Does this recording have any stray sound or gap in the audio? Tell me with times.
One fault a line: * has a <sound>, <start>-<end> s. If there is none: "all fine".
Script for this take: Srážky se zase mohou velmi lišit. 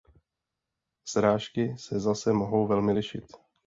all fine